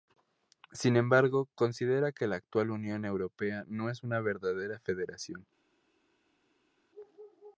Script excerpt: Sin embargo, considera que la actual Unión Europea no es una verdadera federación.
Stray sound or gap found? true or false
false